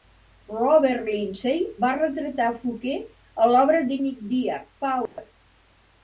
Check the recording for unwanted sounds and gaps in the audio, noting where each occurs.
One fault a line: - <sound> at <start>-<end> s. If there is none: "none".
- dropout at 5.1-5.2 s